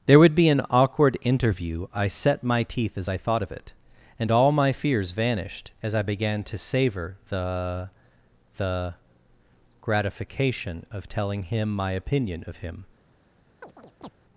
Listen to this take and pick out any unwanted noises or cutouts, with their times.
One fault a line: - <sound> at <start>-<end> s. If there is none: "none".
- chirp at 13.6-14.1 s